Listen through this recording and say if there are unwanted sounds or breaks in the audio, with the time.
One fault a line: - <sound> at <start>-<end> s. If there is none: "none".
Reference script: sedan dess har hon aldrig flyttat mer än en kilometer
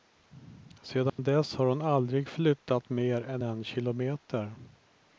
- dropout at 1.1-1.2 s